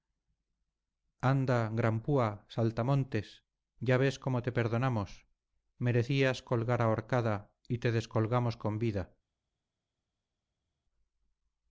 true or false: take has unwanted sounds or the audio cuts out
false